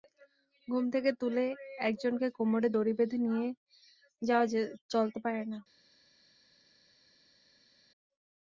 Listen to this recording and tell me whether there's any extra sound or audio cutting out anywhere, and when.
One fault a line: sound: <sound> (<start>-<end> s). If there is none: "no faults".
no faults